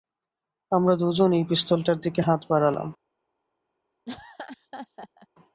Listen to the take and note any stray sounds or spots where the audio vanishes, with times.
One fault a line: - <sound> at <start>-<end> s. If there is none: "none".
- laugh at 4.1-5.3 s